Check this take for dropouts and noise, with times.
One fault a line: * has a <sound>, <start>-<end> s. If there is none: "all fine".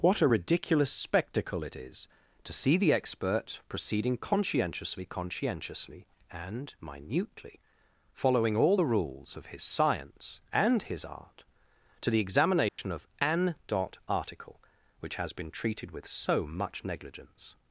* has a dropout, 12.7-12.8 s